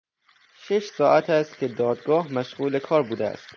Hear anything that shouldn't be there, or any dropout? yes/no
no